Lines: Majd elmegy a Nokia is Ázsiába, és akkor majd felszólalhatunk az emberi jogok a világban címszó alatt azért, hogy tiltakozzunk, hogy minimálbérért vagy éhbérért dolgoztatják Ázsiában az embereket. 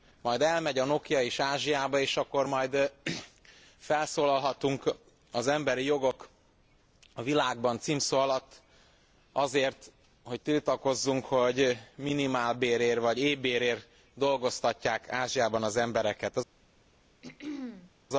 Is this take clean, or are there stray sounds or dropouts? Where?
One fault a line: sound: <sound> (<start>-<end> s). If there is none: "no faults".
sound: throat clearing (17.2-17.9 s)